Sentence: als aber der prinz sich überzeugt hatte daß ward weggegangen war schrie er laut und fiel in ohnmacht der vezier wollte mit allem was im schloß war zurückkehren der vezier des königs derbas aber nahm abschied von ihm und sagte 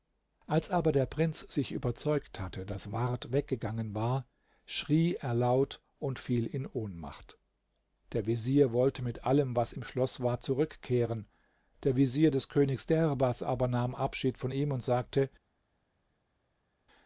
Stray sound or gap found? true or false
false